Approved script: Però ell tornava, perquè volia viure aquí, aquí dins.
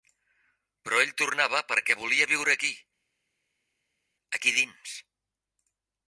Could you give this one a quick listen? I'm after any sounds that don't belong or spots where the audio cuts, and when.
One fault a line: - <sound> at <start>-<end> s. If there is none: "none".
none